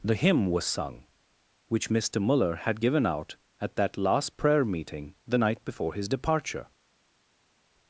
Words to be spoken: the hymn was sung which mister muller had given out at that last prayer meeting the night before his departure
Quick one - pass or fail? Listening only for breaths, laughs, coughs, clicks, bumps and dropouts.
pass